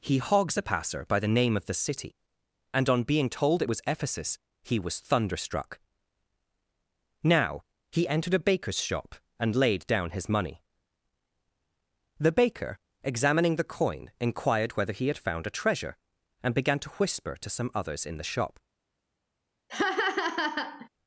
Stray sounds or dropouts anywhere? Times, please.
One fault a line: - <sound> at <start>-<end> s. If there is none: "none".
- laugh at 19.7-20.9 s